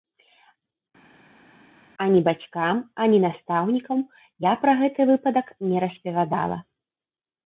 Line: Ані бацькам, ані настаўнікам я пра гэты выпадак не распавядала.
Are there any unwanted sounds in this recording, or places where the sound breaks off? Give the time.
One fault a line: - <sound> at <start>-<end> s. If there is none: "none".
none